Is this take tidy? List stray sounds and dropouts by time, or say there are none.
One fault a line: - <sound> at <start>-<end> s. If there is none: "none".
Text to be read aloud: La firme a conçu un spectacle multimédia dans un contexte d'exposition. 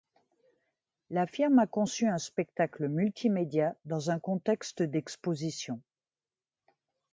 none